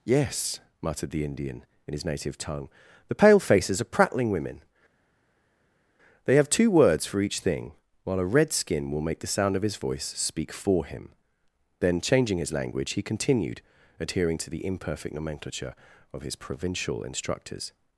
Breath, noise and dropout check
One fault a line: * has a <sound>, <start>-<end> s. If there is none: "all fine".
all fine